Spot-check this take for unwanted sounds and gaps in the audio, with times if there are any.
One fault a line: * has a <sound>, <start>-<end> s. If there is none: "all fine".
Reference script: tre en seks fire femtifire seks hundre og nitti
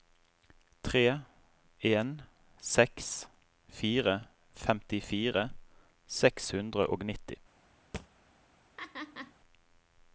* has a thud, 7.9-8.1 s
* has a laugh, 8.8-9.3 s